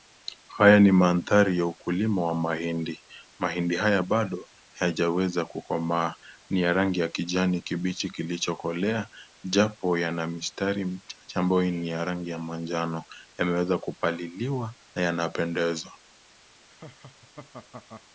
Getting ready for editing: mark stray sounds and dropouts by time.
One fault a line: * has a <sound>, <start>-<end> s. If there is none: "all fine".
* has a laugh, 16.7-18.0 s